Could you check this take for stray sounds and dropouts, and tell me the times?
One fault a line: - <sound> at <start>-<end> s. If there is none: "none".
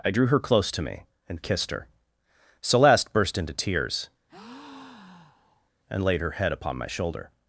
- breath at 4.3-5.7 s